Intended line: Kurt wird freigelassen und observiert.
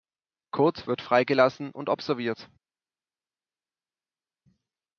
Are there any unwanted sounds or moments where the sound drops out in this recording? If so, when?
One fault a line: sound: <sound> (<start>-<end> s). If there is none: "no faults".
no faults